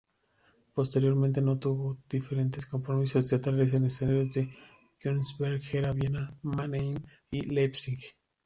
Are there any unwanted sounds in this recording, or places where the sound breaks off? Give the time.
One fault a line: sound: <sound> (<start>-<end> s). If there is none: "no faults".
no faults